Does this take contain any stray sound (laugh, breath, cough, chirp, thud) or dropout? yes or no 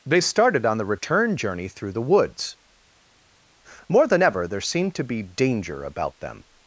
no